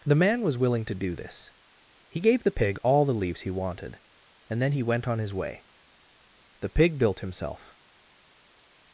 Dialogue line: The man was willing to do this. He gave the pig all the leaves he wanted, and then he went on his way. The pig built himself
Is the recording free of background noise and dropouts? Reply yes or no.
yes